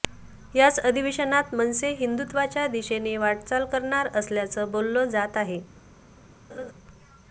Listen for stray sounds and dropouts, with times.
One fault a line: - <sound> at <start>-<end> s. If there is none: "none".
- laugh at 6.5-6.7 s